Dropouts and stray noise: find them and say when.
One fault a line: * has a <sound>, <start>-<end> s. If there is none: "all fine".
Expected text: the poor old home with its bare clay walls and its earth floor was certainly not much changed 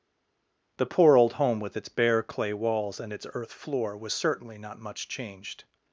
all fine